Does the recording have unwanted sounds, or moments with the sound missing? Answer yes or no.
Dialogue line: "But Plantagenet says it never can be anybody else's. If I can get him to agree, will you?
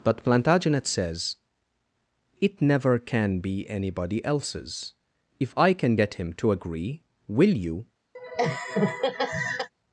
yes